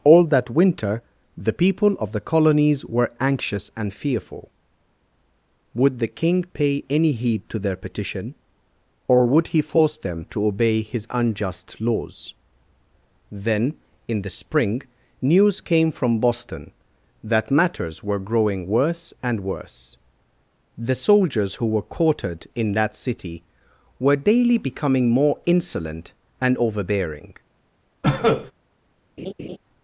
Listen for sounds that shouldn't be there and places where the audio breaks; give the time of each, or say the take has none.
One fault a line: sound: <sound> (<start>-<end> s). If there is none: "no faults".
sound: cough (28.0-28.5 s)
sound: laugh (29.2-29.6 s)